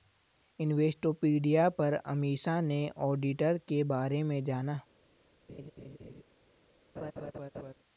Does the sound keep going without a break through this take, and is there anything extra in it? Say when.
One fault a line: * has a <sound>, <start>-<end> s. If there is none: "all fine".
* has a laugh, 5.5-6.2 s
* has a laugh, 7.0-7.7 s